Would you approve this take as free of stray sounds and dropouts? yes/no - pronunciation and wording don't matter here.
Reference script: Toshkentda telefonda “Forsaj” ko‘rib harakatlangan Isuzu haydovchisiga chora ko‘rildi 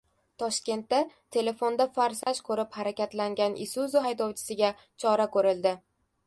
no